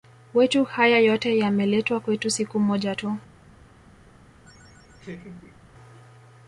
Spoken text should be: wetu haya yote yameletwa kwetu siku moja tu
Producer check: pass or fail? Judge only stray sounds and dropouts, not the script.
fail